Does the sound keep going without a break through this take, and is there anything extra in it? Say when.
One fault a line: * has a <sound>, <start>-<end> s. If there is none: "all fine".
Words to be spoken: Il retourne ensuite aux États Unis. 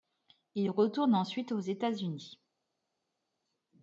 all fine